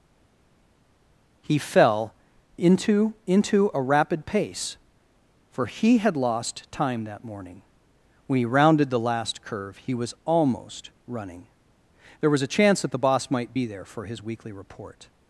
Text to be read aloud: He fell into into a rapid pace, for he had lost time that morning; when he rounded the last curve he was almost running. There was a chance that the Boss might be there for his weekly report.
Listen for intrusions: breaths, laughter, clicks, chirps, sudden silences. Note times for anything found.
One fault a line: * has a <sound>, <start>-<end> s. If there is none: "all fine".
all fine